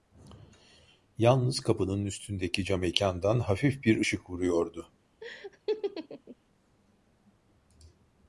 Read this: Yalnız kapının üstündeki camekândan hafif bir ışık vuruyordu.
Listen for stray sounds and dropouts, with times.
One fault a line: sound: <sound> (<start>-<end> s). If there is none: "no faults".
sound: laugh (5.2-6.4 s)